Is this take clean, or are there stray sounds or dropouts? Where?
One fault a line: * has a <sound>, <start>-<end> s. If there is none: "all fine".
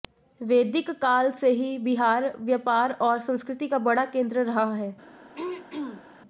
* has a throat clearing, 5.4-6.1 s